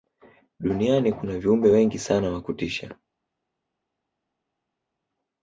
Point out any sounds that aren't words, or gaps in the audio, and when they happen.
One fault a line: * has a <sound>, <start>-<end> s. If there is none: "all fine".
all fine